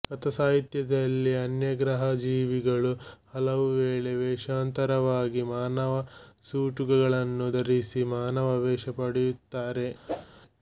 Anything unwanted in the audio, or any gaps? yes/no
yes